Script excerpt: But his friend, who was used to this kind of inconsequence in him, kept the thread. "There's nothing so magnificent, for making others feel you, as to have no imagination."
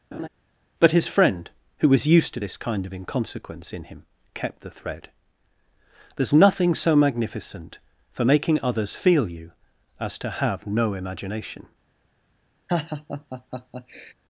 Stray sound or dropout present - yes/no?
yes